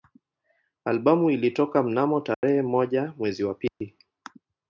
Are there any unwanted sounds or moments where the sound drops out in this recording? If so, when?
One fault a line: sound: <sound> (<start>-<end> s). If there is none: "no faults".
sound: dropout (2.3-2.4 s)
sound: dropout (3.7-3.8 s)